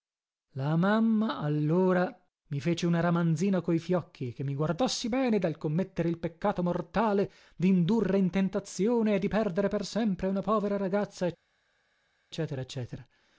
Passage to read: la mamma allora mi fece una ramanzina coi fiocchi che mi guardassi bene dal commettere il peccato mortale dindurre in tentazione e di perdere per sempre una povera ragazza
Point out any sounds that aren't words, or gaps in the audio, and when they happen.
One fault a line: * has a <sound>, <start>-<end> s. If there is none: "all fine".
all fine